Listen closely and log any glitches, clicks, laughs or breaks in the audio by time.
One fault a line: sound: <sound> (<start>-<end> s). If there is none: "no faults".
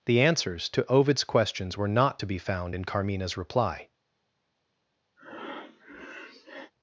sound: breath (5.2-6.7 s)